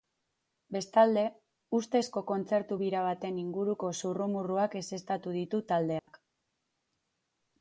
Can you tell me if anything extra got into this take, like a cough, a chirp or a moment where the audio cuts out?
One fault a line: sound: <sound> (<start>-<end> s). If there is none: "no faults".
sound: dropout (6.0-6.1 s)